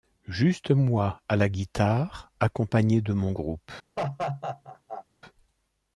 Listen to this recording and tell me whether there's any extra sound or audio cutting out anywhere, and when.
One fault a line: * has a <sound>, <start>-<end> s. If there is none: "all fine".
* has a laugh, 4.0-5.0 s